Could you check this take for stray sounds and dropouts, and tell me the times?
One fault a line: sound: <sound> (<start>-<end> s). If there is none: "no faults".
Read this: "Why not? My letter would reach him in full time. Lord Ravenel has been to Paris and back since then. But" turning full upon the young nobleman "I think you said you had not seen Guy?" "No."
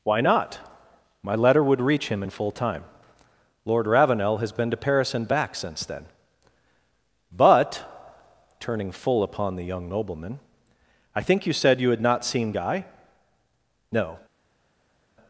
no faults